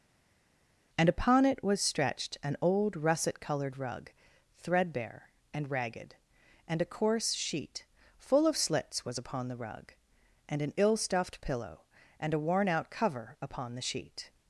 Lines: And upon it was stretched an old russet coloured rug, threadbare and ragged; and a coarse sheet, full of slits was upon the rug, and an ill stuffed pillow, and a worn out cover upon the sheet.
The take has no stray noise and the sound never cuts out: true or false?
true